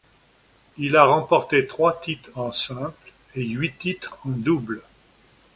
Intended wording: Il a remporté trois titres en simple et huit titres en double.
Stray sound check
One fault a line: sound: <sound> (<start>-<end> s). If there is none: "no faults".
no faults